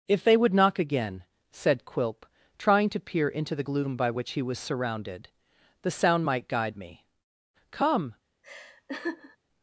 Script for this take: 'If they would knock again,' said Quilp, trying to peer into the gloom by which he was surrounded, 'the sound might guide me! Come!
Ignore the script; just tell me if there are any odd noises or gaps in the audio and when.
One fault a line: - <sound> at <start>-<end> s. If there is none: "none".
- laugh at 8.4-9.4 s